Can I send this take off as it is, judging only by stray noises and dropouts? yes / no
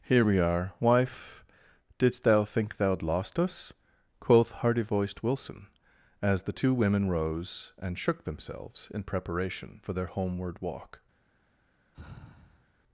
no